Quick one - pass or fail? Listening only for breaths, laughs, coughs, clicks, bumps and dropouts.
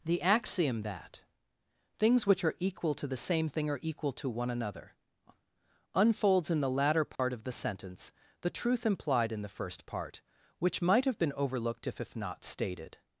fail